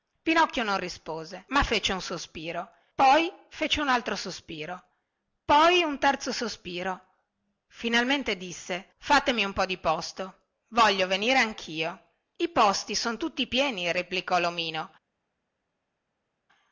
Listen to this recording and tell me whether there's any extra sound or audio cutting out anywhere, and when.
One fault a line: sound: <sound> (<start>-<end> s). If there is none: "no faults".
no faults